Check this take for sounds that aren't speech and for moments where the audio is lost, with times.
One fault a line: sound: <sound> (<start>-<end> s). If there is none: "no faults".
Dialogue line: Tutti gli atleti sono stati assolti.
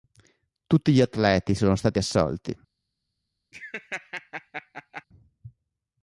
sound: laugh (3.5-5.0 s)